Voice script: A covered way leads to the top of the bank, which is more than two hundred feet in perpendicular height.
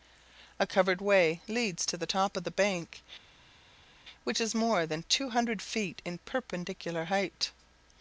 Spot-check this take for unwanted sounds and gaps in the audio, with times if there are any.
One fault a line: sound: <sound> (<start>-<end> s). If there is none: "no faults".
no faults